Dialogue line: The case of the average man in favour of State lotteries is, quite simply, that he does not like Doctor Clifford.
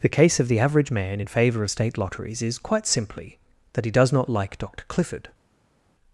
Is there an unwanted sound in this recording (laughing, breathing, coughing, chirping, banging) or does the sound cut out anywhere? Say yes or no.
no